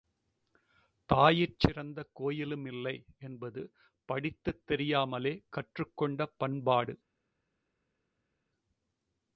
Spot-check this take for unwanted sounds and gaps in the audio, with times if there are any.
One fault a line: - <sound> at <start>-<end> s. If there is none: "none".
none